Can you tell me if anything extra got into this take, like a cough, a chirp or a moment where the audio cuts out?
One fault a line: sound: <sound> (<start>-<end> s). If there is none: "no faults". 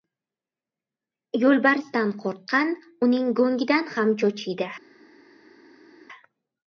no faults